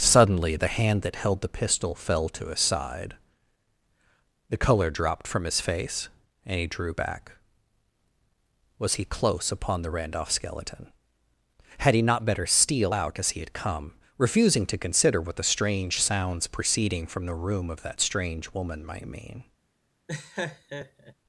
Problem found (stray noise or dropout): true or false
true